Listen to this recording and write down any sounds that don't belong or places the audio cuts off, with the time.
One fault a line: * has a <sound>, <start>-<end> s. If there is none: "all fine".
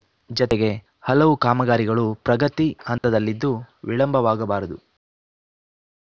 * has a dropout, 3.0-3.0 s